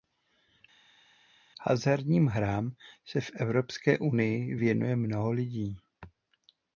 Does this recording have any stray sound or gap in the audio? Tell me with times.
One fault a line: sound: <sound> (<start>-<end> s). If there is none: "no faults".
no faults